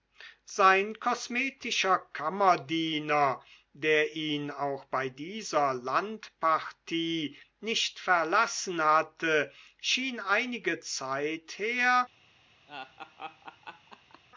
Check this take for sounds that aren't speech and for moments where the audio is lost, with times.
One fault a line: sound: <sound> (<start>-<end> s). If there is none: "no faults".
sound: laugh (12.7-14.2 s)